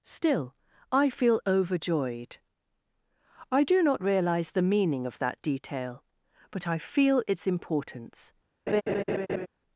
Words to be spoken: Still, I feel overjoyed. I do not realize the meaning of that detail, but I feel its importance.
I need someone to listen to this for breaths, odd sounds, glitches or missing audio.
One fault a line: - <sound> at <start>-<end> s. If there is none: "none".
- laugh at 8.7-9.5 s